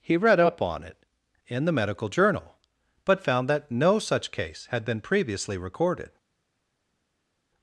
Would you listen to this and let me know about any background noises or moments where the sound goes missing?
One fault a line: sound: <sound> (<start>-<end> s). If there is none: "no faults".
no faults